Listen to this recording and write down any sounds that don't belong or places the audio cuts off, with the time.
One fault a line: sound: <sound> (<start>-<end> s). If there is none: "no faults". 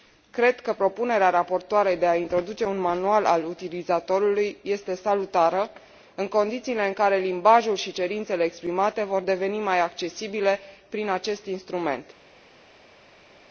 no faults